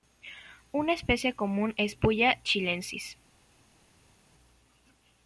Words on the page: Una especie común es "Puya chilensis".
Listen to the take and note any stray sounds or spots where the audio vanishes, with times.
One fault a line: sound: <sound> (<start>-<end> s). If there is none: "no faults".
no faults